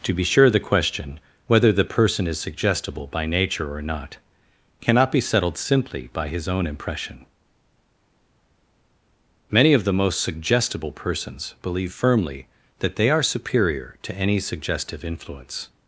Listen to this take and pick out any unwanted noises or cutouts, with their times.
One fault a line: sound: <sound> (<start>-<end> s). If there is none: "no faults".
no faults